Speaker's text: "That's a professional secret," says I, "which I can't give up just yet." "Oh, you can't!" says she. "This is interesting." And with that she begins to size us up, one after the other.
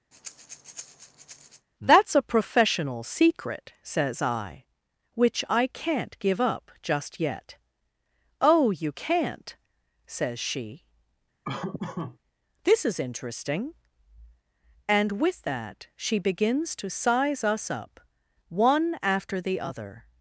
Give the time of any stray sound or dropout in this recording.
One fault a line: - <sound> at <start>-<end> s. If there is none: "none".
- breath at 0.1-1.7 s
- laugh at 11.4-12.2 s